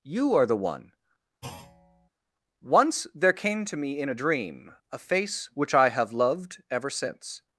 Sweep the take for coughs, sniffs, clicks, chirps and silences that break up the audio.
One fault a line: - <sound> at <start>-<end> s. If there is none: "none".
- thud at 1.4-2.1 s